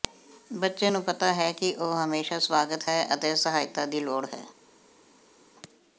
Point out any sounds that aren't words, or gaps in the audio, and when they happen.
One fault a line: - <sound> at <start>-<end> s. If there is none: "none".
none